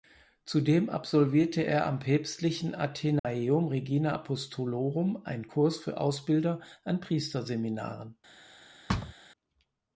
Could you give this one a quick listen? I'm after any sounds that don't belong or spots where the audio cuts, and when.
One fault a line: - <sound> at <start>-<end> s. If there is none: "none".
- dropout at 3.2-3.2 s
- thud at 8.9-9.1 s